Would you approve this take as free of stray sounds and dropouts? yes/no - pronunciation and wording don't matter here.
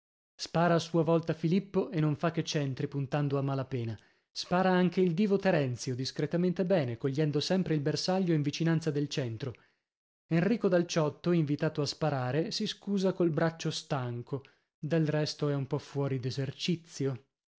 yes